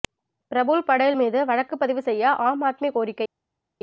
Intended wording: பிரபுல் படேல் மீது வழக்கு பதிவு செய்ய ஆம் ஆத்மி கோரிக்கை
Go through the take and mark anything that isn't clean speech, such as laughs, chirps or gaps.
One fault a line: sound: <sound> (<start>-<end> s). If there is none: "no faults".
no faults